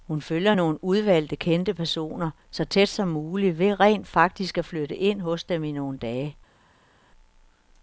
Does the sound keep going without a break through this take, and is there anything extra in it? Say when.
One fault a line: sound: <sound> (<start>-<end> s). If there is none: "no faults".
no faults